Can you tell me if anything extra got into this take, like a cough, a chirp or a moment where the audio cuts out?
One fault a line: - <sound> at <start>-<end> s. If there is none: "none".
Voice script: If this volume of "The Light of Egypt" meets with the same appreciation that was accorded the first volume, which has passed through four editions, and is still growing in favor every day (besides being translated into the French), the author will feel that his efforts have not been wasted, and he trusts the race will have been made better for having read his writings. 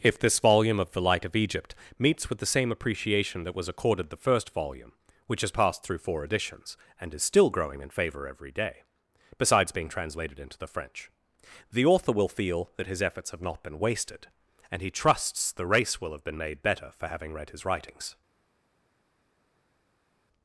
none